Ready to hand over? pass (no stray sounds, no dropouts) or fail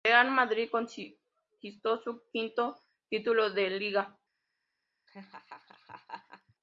fail